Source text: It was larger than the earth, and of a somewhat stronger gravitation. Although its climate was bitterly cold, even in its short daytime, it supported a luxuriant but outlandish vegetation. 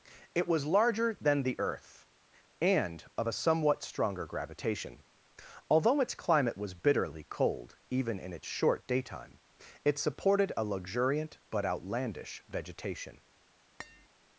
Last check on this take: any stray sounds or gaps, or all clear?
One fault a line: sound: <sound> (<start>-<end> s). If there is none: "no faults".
sound: tap (13.8-14.1 s)